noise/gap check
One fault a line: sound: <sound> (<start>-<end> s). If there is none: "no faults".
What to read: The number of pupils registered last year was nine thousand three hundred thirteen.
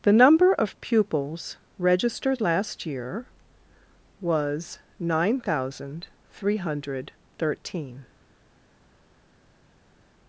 no faults